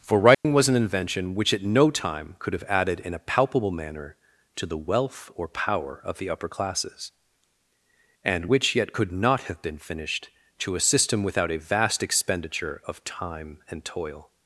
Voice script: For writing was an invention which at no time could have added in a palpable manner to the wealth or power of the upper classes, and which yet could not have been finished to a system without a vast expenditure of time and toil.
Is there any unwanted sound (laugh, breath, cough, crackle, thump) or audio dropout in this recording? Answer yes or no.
yes